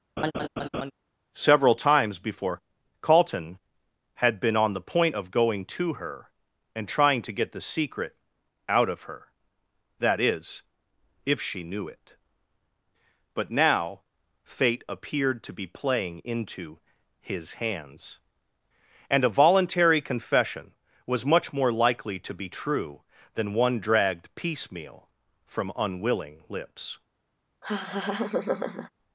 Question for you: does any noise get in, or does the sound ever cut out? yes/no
yes